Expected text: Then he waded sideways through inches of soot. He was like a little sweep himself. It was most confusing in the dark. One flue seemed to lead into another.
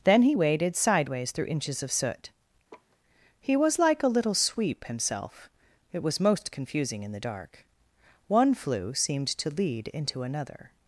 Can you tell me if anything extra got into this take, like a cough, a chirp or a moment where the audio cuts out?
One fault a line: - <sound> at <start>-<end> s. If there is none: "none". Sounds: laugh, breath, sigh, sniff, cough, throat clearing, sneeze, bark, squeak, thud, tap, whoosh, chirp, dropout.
- laugh at 2.7-3.0 s